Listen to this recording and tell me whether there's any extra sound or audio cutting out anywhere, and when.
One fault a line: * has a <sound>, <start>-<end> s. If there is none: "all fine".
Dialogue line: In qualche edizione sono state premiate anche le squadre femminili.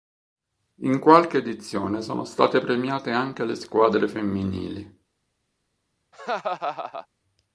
* has a laugh, 6.1-7.1 s